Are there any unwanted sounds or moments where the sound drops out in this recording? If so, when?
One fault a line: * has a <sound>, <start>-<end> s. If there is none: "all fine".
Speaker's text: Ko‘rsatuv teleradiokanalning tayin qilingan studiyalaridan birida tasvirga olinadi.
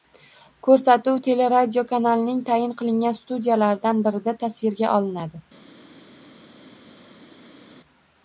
all fine